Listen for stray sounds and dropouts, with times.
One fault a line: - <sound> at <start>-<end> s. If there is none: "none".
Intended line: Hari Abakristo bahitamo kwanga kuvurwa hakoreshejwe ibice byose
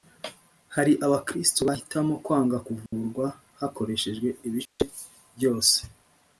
- dropout at 2.9-2.9 s
- dropout at 4.6-4.8 s